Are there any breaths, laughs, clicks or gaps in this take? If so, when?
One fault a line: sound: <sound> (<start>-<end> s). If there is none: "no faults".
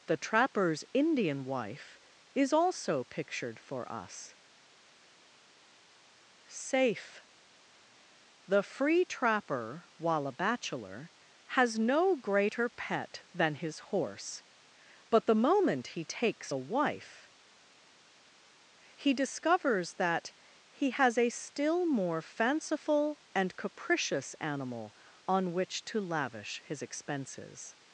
no faults